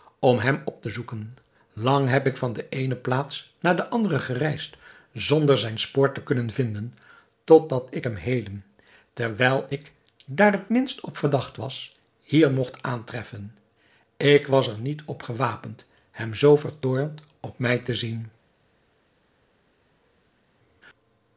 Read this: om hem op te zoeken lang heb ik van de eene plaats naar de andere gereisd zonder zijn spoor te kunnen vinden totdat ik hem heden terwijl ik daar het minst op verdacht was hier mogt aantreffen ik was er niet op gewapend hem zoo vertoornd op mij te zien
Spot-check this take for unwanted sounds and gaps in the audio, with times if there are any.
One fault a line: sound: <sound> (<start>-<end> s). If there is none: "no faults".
no faults